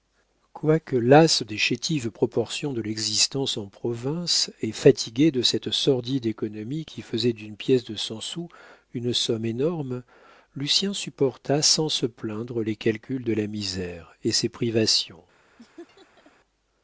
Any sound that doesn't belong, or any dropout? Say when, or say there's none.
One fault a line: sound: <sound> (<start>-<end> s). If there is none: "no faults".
sound: laugh (15.6-16.3 s)